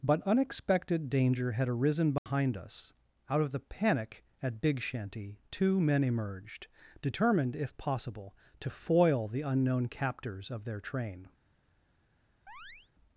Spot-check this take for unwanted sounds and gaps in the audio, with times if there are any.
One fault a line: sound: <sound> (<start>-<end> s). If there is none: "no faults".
sound: dropout (2.2-2.3 s)
sound: chirp (12.5-12.9 s)